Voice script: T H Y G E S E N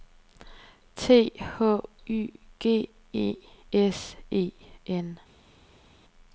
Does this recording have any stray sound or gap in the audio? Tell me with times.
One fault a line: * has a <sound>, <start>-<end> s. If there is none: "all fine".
all fine